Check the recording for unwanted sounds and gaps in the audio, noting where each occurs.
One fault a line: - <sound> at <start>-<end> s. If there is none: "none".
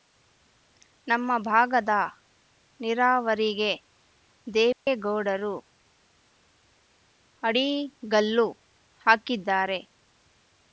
- dropout at 4.7-4.9 s